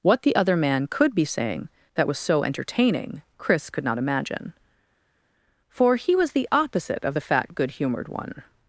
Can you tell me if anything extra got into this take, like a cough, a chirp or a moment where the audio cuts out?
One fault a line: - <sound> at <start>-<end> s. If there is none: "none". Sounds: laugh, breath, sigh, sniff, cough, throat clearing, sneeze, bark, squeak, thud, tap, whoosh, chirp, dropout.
none